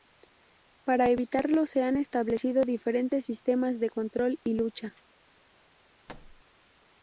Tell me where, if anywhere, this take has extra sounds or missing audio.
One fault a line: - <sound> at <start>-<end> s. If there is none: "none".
- thud at 6.1-6.4 s